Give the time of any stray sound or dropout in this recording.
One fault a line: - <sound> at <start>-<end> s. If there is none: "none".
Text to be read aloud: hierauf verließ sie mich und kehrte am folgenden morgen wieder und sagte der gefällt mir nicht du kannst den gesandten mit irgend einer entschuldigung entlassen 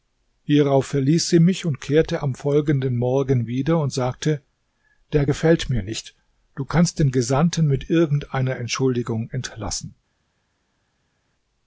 none